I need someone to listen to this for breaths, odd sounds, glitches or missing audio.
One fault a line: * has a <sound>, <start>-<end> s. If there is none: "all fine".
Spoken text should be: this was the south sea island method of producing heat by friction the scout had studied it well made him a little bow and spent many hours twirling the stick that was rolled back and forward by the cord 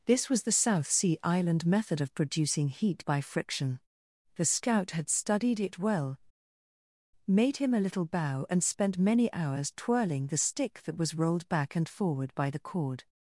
all fine